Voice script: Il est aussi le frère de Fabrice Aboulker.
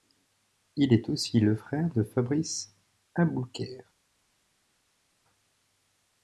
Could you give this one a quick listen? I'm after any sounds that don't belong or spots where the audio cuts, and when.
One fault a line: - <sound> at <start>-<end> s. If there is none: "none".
none